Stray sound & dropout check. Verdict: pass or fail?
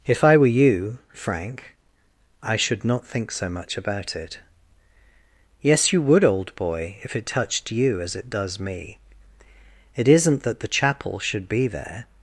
pass